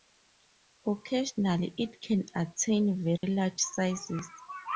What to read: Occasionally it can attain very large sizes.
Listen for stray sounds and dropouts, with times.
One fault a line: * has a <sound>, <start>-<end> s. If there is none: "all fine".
* has a dropout, 3.2-3.2 s